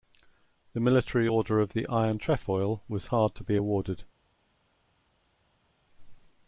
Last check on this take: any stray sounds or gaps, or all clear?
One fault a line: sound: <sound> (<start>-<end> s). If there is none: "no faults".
no faults